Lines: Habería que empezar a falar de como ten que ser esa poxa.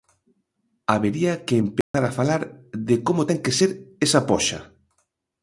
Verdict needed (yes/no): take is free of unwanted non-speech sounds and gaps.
no